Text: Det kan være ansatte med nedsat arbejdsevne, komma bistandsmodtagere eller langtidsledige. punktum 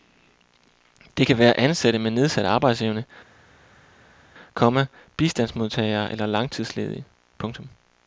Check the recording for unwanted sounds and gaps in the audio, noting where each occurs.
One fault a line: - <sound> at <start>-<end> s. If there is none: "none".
none